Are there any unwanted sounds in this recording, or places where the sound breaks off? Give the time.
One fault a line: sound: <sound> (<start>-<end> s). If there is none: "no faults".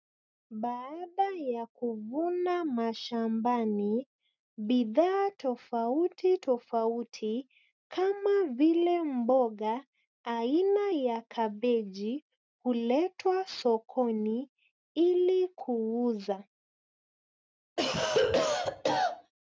sound: cough (17.8-19.3 s)